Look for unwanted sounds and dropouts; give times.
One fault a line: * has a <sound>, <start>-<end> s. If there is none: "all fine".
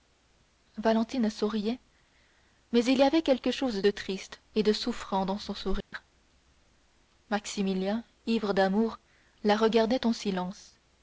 * has a dropout, 5.8-5.9 s